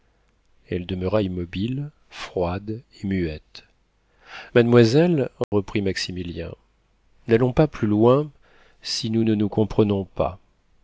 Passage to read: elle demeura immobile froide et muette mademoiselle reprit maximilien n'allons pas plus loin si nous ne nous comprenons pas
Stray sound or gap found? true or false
true